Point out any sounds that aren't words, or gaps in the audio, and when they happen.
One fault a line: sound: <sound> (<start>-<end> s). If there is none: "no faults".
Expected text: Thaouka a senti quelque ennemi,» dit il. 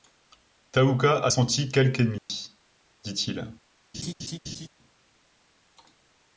sound: dropout (2.2-2.3 s)
sound: laugh (3.9-4.7 s)